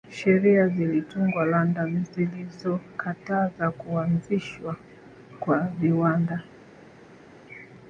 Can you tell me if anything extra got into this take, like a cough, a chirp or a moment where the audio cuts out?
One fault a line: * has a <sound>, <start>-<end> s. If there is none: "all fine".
all fine